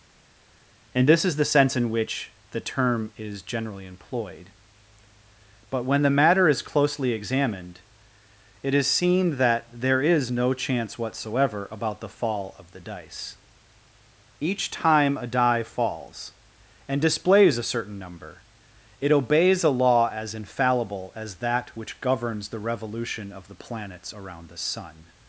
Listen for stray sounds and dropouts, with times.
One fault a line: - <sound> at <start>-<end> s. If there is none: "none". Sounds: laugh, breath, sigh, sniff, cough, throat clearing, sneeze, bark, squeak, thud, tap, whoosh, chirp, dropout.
none